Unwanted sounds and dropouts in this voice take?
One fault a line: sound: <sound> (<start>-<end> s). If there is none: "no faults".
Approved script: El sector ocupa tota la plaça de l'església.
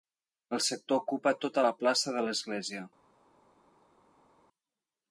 no faults